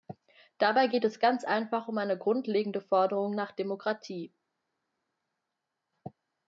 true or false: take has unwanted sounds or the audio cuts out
false